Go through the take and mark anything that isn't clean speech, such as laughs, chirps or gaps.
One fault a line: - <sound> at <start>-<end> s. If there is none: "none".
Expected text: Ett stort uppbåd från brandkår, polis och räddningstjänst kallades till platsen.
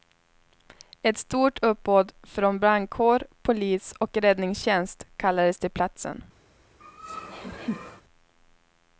- laugh at 6.8-8.0 s